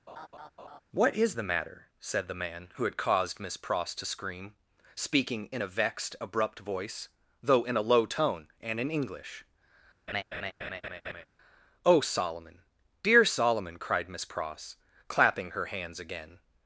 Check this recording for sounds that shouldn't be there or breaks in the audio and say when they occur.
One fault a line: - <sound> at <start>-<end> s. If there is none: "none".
- laugh at 0.1-0.8 s
- laugh at 10.1-11.3 s